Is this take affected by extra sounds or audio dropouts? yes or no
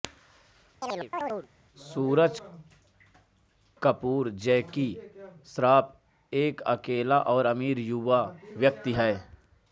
yes